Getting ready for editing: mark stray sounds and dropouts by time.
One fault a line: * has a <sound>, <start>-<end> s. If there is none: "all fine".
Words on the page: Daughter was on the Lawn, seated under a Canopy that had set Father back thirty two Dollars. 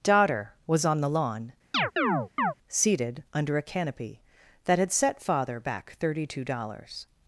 * has a chirp, 1.7-2.5 s